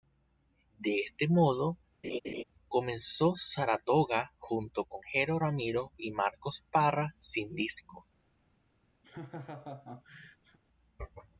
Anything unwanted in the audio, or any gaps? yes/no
yes